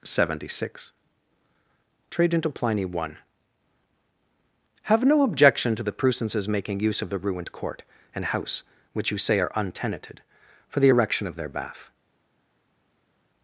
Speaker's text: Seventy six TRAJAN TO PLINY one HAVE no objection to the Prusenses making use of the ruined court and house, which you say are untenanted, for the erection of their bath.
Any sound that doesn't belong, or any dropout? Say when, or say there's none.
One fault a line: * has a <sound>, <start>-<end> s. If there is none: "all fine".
all fine